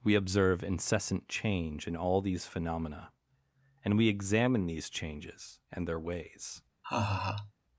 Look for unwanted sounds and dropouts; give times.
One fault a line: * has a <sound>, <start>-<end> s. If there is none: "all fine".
* has a laugh, 6.8-7.5 s